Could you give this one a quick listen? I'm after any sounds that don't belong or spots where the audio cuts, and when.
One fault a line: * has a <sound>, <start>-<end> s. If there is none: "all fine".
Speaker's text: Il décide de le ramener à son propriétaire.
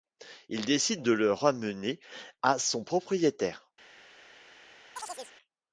* has a chirp, 5.0-5.3 s